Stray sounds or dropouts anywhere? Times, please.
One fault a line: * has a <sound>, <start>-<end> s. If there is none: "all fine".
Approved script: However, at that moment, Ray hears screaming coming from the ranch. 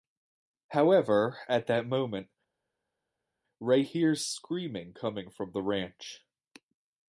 all fine